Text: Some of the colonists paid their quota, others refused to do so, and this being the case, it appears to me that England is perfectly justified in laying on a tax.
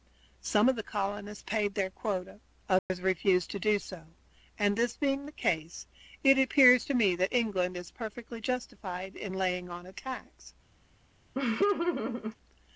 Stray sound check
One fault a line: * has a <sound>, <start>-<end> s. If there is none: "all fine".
* has a dropout, 2.8-2.9 s
* has a laugh, 11.3-12.4 s